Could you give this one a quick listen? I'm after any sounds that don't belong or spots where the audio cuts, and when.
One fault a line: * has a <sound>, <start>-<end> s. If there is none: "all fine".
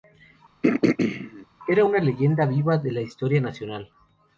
* has a throat clearing, 0.6-1.5 s